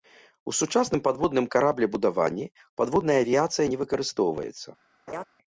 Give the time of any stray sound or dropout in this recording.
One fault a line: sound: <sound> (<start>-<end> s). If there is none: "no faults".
sound: laugh (5.1-5.2 s)